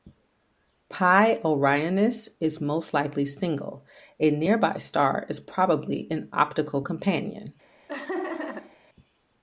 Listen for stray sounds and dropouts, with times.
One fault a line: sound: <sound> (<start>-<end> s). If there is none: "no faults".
sound: laugh (7.9-8.8 s)